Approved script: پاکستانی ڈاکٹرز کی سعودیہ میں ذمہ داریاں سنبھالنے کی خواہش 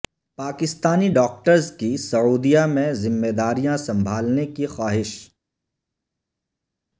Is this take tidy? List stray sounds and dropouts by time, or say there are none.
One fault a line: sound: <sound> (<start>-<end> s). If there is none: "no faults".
no faults